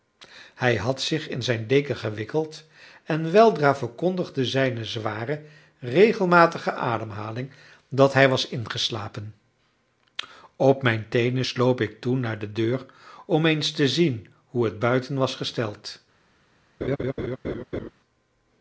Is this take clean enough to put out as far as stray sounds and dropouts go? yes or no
no